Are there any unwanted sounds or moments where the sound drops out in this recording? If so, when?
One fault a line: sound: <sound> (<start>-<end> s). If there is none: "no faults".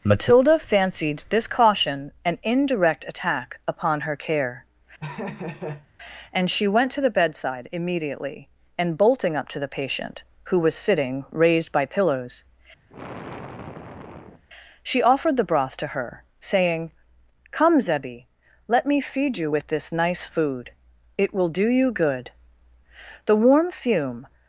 sound: laugh (5.0-5.9 s)
sound: sigh (12.9-14.4 s)